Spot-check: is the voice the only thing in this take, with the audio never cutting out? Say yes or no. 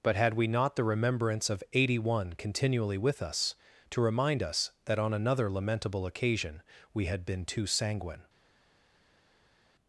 yes